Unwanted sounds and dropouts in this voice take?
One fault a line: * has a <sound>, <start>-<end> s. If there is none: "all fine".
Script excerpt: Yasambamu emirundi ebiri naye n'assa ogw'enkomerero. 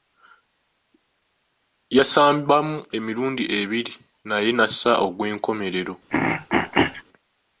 * has a throat clearing, 6.1-7.0 s